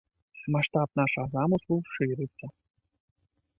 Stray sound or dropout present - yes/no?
no